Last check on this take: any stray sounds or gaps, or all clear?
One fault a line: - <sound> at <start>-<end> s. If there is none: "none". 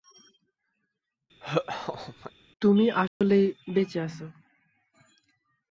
- laugh at 1.4-2.3 s
- dropout at 3.1-3.2 s